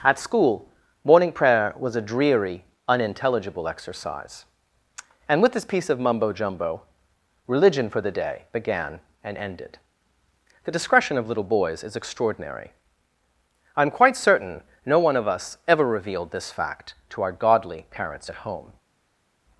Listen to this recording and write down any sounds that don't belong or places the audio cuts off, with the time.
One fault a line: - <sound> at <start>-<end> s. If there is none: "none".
none